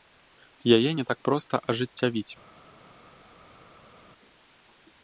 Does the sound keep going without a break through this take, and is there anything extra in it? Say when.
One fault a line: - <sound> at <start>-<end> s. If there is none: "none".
none